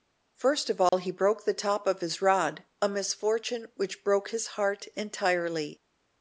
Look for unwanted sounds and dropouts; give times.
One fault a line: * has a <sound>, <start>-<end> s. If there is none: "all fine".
* has a dropout, 0.9-0.9 s